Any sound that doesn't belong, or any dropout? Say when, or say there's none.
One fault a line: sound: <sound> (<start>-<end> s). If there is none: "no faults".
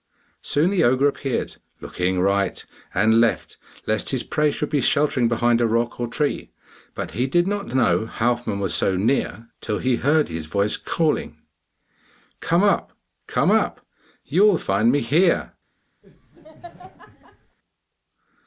sound: laugh (16.0-17.6 s)